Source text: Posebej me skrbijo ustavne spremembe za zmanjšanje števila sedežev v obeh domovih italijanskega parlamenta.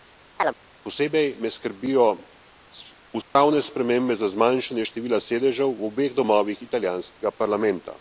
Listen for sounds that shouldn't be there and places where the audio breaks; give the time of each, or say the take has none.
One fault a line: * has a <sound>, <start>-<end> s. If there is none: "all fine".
* has a chirp, 0.4-0.6 s
* has a dropout, 3.2-3.4 s